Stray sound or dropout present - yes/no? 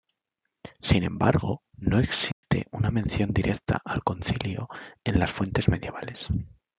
yes